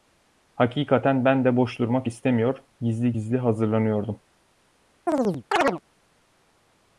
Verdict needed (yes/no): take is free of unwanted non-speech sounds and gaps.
no